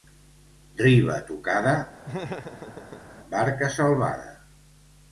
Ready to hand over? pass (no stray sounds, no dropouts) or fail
fail